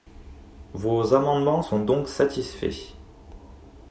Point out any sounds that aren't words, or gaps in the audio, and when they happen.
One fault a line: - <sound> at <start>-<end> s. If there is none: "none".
none